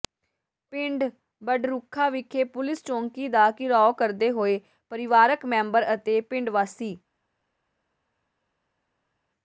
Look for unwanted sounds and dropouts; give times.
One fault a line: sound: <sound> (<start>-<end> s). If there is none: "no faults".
no faults